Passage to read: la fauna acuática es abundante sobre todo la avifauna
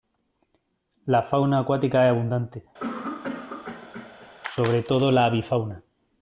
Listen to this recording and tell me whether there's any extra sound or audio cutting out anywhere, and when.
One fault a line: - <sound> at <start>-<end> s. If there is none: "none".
- cough at 2.8-4.3 s